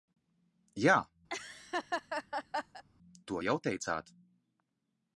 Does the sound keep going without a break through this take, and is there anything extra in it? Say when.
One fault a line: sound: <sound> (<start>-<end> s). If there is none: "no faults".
sound: laugh (1.3-2.8 s)